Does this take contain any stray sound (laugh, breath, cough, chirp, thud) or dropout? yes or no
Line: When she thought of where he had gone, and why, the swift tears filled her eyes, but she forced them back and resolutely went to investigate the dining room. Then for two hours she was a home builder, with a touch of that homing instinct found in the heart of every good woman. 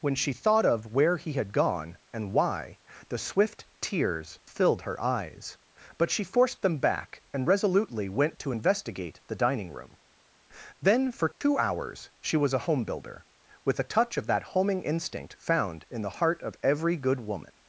yes